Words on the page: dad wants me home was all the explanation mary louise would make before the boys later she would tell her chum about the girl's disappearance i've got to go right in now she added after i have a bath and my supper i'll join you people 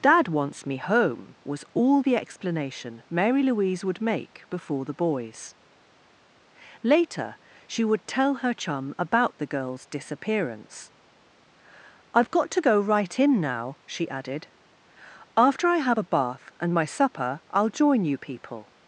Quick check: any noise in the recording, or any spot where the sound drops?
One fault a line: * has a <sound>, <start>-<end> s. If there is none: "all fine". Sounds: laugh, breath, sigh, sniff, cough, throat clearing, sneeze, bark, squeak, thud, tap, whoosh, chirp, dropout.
all fine